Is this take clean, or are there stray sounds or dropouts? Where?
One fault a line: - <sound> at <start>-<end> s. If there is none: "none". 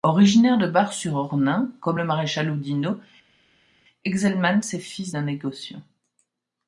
none